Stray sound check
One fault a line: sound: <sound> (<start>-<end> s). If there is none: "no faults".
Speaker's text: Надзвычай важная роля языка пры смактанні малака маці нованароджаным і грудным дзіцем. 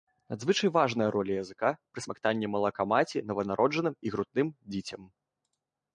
no faults